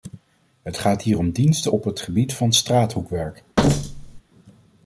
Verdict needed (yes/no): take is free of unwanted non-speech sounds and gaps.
no